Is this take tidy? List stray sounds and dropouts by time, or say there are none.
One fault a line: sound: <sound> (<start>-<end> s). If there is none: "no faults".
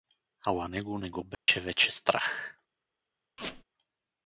sound: dropout (1.3-1.5 s)
sound: squeak (3.4-3.6 s)